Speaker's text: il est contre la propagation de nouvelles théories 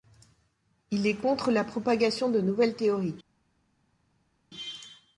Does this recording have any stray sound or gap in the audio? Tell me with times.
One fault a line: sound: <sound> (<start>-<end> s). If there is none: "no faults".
no faults